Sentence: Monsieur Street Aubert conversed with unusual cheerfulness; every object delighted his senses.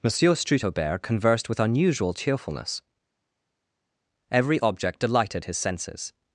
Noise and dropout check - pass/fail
pass